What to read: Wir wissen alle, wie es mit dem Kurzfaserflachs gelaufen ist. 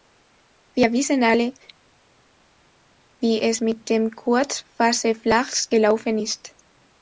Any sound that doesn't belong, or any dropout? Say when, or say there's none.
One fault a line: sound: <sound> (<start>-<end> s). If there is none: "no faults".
no faults